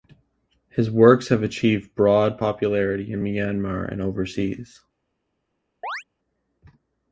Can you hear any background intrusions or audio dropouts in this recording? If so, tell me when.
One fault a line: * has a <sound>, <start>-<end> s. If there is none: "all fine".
* has a chirp, 5.8-6.0 s